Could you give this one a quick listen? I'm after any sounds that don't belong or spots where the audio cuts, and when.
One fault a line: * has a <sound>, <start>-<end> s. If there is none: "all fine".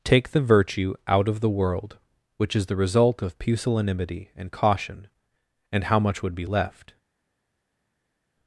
all fine